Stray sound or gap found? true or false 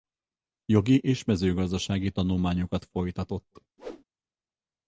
true